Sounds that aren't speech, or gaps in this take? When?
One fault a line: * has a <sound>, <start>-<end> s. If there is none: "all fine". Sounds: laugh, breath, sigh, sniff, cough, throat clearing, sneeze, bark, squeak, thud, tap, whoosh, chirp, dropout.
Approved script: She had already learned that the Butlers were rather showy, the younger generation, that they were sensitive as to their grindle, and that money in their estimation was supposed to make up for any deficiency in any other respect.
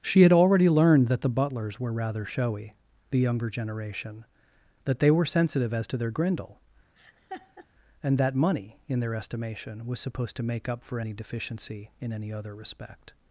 * has a laugh, 7.0-7.7 s